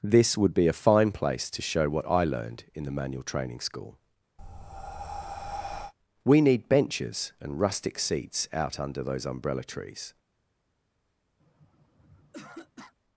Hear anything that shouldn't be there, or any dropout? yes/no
yes